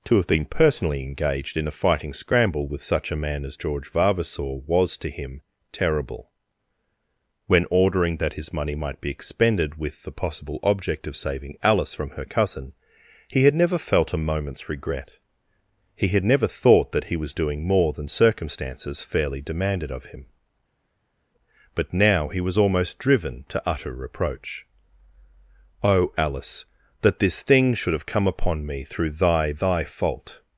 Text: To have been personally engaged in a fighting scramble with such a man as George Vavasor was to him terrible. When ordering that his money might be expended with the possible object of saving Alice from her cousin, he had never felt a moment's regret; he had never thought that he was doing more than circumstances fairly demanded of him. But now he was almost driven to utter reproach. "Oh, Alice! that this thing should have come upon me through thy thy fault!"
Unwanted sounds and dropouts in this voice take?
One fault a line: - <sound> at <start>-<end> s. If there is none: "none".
none